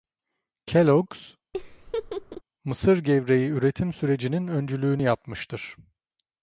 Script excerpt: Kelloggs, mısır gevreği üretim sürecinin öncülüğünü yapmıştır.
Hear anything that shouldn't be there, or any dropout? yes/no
yes